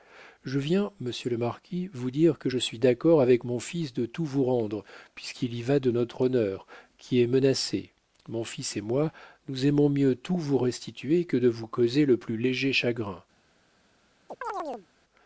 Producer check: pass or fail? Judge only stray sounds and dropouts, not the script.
fail